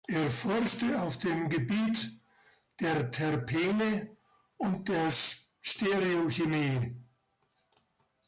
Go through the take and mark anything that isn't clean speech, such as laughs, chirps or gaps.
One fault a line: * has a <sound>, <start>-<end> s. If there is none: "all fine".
all fine